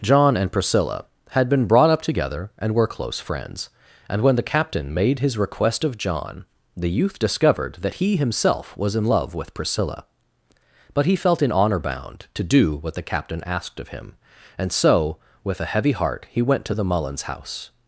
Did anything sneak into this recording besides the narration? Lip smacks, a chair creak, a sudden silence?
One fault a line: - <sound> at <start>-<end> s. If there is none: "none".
none